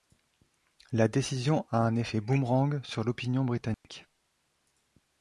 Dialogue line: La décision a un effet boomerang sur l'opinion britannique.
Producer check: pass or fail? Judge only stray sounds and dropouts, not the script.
fail